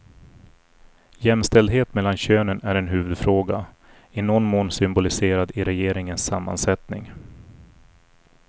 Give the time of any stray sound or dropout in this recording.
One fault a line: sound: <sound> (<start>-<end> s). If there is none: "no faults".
no faults